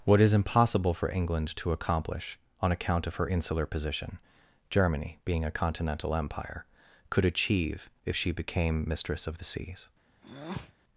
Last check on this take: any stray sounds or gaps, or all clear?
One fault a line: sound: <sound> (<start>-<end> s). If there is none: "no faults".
sound: breath (10.2-10.7 s)